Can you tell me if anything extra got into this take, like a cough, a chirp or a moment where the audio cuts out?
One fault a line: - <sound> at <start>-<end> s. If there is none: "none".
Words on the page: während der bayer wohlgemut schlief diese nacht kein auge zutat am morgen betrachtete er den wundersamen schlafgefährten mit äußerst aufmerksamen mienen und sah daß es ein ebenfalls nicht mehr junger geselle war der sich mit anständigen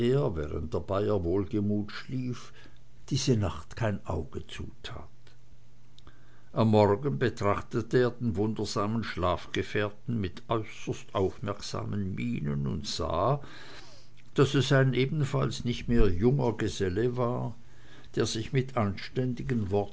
none